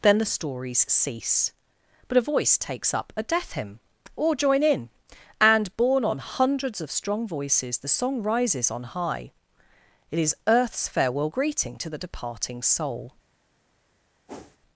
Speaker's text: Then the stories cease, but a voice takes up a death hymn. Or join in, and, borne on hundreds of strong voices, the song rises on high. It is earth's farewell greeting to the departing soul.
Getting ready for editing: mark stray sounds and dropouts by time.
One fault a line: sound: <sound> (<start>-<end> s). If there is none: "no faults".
sound: whoosh (14.3-14.6 s)